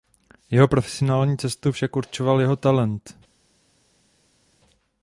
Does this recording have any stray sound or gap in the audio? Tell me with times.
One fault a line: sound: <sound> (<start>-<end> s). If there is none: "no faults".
no faults